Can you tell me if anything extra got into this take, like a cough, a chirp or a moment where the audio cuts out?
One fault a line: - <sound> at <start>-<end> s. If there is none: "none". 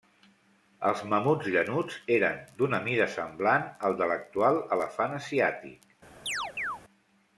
- chirp at 6.3-6.8 s